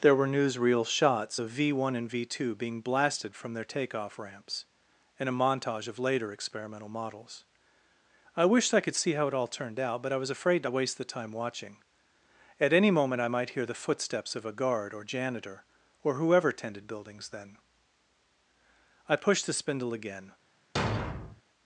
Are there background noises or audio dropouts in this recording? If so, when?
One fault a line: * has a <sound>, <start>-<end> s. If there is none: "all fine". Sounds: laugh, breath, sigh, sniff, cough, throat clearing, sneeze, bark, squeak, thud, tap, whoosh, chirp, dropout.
* has a thud, 20.8-21.4 s